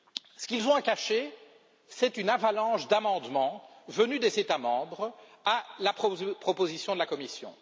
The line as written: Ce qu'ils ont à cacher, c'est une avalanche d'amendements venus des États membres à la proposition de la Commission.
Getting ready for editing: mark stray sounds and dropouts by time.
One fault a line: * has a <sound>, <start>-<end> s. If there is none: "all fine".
all fine